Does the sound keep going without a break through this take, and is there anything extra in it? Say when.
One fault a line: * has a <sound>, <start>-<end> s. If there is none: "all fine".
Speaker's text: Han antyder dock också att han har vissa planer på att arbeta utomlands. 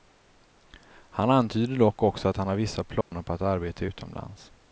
* has a dropout, 3.0-3.1 s